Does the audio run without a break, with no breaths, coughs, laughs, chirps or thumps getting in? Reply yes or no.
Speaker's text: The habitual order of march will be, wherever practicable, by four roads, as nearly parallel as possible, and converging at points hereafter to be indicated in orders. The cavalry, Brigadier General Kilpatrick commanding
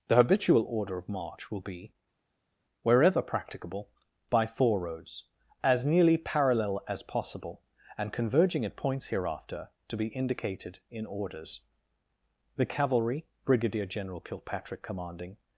yes